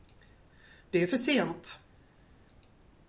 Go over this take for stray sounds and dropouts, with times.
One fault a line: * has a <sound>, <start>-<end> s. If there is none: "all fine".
all fine